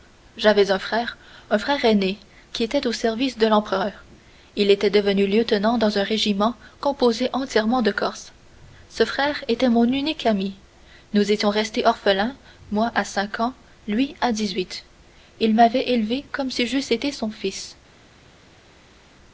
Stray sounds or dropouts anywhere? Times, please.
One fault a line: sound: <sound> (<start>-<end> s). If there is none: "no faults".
no faults